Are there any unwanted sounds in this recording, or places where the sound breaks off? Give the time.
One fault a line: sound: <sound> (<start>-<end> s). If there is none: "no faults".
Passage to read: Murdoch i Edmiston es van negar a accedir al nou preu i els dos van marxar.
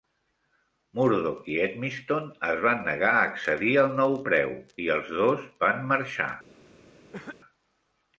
sound: cough (7.1-7.4 s)